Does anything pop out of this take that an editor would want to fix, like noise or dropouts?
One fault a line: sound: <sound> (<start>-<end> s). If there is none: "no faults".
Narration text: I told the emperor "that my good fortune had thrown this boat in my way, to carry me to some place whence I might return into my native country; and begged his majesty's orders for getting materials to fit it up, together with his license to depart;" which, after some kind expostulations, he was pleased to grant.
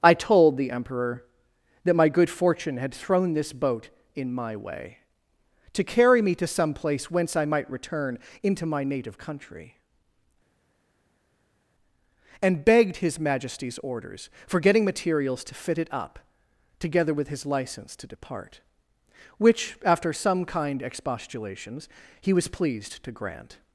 no faults